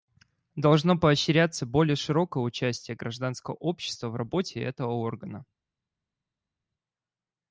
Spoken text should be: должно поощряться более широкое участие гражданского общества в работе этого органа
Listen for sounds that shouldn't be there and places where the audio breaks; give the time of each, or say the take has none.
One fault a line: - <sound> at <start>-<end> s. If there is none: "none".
none